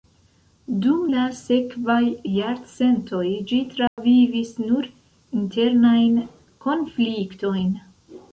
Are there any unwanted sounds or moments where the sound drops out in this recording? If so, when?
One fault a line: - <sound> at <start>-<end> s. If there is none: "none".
- dropout at 3.9-4.0 s